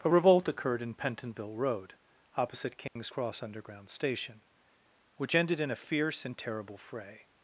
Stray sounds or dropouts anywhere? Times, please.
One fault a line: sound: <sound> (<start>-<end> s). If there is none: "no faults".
sound: dropout (2.9-3.0 s)